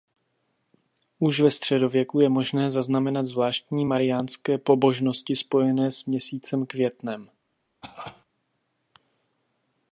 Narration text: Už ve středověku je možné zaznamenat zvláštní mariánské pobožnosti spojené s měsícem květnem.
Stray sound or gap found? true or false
true